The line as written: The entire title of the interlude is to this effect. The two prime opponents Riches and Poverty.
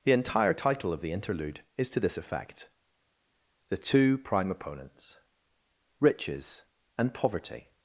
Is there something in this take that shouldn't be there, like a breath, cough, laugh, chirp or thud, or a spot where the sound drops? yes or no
no